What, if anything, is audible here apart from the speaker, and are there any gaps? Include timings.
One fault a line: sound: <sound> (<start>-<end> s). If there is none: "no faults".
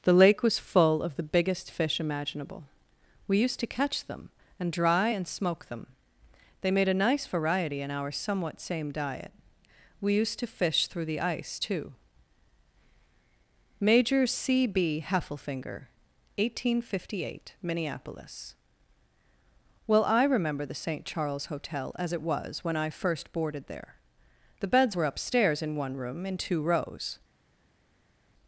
no faults